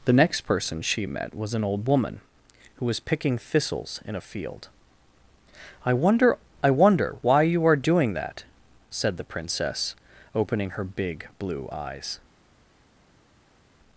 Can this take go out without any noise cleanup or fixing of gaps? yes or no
yes